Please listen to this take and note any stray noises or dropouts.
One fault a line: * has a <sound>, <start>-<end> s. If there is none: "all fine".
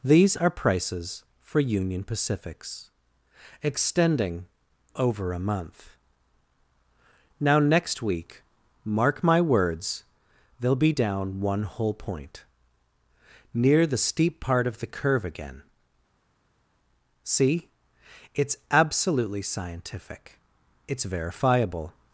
all fine